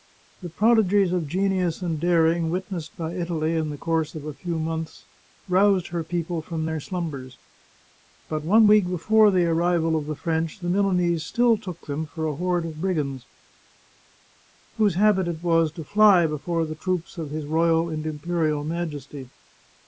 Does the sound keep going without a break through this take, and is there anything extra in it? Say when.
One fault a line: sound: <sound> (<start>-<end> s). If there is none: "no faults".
no faults